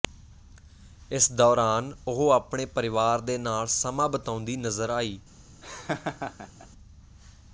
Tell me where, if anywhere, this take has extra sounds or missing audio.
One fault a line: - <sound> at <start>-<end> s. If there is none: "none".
- laugh at 5.6-6.7 s